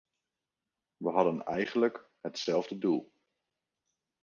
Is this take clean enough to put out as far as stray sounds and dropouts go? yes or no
yes